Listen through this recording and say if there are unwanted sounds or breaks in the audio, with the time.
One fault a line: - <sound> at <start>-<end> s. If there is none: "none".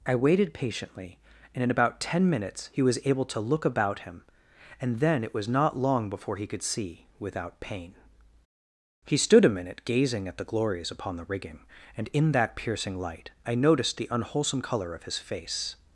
none